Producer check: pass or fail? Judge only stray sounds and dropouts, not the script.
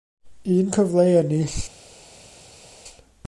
pass